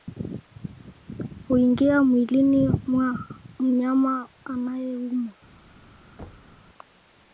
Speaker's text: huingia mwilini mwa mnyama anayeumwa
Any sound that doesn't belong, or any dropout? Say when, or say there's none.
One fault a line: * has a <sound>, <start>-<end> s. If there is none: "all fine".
* has a thud, 6.2-6.6 s